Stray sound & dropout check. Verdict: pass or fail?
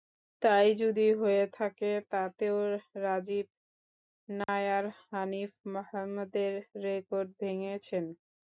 fail